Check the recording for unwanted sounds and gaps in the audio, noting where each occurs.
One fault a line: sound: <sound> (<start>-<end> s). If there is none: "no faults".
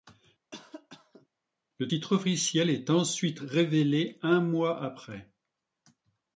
sound: cough (0.5-1.3 s)